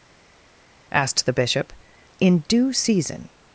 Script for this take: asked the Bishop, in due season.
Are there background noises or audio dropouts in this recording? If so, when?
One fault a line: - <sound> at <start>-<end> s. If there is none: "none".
none